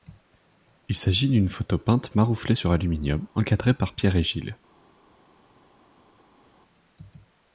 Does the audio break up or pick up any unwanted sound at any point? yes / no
no